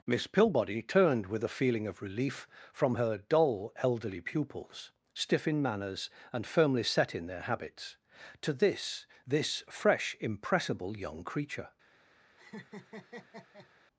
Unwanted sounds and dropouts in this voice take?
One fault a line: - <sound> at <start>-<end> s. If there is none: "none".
- laugh at 12.4-13.7 s